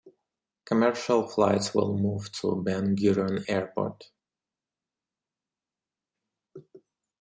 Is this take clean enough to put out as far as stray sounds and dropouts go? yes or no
yes